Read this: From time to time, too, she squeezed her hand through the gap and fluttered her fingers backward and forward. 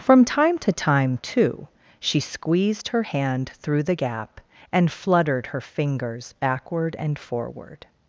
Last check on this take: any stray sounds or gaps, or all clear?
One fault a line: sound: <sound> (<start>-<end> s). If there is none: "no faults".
no faults